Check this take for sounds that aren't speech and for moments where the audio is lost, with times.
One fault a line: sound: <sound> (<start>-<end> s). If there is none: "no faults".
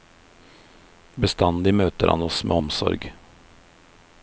no faults